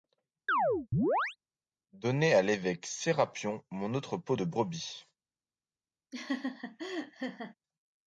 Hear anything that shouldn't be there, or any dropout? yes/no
yes